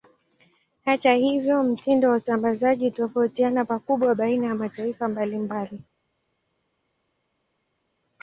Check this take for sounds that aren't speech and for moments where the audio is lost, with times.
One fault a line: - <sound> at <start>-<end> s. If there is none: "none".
none